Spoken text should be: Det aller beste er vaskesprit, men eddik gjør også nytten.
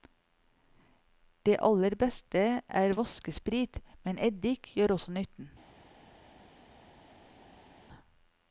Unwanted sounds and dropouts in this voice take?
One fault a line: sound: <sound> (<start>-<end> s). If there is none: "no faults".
no faults